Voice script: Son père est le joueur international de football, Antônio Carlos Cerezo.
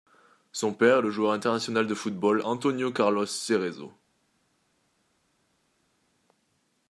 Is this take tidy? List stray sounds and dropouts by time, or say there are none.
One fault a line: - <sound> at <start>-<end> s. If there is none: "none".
none